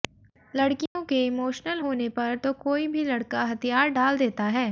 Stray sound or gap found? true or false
true